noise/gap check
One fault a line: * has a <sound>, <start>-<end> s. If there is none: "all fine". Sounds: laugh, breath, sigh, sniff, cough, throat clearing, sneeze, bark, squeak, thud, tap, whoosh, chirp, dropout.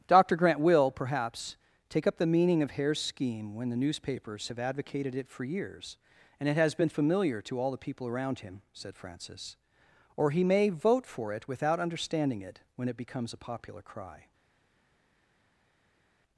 all fine